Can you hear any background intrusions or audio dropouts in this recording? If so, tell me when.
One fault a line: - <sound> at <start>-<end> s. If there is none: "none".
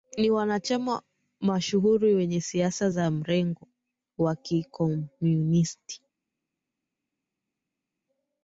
none